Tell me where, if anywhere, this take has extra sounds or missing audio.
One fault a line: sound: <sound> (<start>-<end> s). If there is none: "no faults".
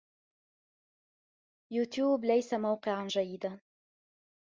no faults